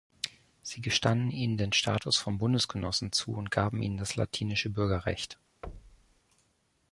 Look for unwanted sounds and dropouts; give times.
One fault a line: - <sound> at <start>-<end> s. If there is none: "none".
- thud at 5.6-6.2 s